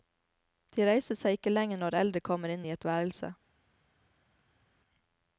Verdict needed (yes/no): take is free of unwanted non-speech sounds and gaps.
yes